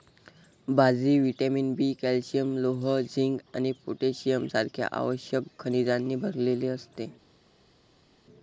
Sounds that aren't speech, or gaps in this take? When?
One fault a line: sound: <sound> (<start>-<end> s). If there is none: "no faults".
no faults